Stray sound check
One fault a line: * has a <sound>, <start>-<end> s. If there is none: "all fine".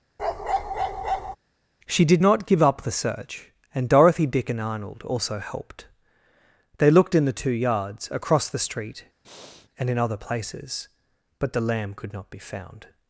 * has a bark, 0.2-1.4 s
* has a breath, 9.2-9.7 s